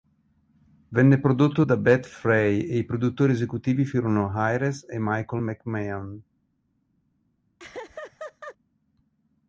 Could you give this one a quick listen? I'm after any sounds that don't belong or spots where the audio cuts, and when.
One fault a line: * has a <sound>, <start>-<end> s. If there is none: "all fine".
* has a laugh, 7.6-8.6 s